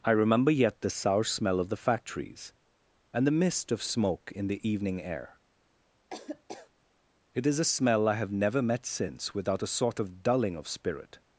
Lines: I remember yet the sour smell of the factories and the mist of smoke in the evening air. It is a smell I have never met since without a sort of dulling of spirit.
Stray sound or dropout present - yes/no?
yes